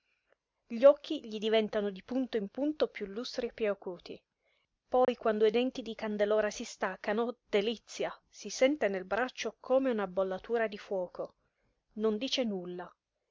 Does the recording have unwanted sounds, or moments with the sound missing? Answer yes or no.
yes